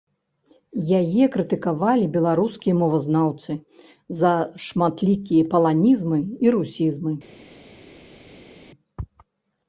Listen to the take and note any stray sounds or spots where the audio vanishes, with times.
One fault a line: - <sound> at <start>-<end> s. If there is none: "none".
none